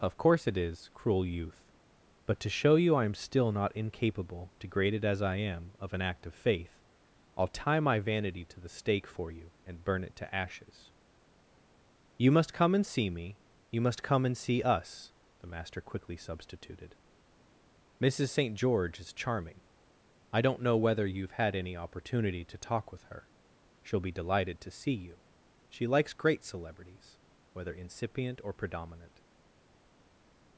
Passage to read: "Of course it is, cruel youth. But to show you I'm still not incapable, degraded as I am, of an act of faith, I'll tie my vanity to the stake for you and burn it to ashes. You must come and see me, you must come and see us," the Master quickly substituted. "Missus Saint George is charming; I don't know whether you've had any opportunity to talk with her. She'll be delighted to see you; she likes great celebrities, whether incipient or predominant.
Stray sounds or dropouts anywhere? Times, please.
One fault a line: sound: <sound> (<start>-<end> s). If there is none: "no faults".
no faults